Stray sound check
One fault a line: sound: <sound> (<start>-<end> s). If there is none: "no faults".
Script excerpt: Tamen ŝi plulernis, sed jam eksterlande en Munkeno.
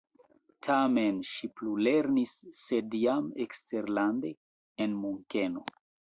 no faults